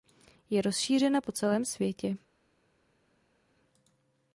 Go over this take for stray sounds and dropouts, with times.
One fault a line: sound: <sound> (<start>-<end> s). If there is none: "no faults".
no faults